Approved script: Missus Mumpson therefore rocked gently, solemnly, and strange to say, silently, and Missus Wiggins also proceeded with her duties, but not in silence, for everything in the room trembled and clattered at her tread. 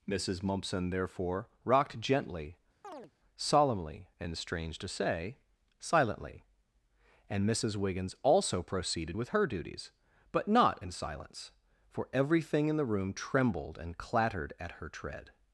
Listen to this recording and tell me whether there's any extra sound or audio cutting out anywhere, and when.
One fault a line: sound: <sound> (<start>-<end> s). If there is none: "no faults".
sound: chirp (2.8-3.1 s)